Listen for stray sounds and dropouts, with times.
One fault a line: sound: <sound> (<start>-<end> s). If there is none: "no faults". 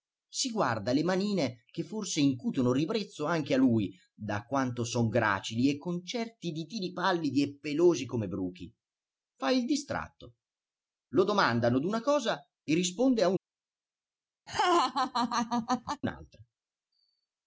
sound: laugh (14.5-16.0 s)